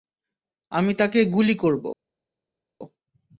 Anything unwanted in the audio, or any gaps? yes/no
no